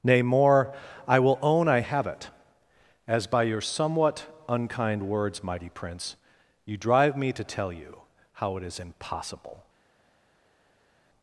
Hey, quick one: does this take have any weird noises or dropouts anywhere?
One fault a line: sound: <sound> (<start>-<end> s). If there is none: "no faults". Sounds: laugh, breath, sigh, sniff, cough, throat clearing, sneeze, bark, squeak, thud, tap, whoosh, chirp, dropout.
no faults